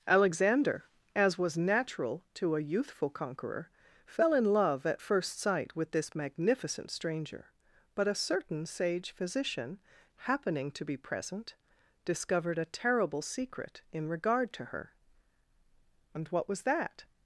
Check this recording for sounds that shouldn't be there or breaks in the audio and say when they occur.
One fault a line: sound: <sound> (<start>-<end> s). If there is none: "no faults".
no faults